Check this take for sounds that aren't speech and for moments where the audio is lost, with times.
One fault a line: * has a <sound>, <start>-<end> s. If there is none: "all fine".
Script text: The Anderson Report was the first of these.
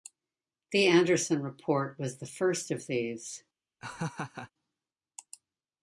* has a laugh, 3.8-4.5 s